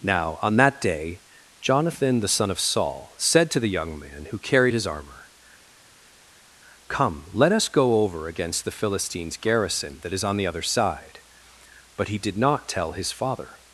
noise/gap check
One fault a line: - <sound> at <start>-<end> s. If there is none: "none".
none